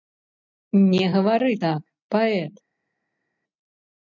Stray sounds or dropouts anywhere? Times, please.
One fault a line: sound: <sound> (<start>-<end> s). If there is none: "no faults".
no faults